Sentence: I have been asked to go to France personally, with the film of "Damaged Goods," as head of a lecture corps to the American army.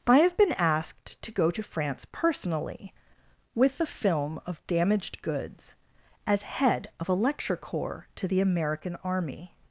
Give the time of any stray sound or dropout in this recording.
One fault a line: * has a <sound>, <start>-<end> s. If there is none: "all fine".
all fine